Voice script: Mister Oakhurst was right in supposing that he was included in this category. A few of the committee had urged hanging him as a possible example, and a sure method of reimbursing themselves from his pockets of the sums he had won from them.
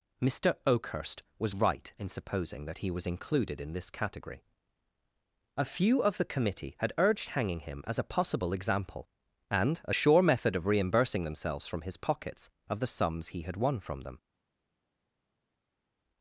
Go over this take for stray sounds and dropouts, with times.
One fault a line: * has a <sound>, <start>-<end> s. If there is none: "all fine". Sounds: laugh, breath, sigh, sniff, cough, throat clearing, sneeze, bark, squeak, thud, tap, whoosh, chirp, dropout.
all fine